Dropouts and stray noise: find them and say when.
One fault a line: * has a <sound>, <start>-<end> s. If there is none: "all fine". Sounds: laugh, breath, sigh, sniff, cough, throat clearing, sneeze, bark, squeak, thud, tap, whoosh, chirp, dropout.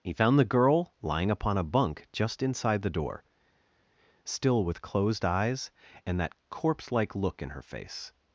all fine